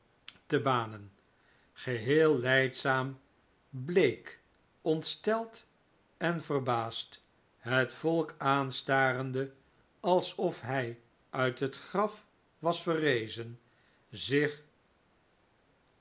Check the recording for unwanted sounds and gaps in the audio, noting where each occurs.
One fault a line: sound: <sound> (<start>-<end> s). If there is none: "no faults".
no faults